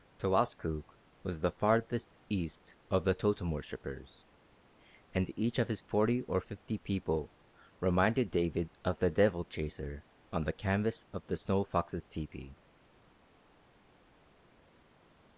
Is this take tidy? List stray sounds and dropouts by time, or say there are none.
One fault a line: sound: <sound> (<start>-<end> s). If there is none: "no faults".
no faults